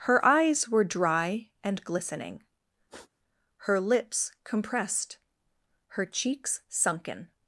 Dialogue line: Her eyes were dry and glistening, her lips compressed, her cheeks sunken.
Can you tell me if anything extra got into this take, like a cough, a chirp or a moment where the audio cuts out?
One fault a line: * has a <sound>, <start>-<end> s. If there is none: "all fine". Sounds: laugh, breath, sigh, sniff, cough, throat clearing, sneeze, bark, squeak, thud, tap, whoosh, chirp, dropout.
* has a sniff, 2.9-3.1 s